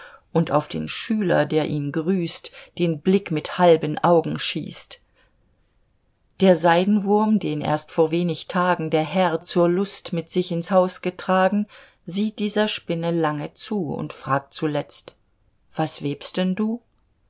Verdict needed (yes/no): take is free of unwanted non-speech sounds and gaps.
yes